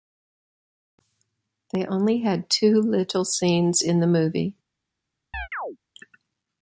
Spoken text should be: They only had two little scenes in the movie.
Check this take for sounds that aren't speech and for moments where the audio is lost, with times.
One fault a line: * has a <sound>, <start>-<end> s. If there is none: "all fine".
* has a chirp, 5.3-5.8 s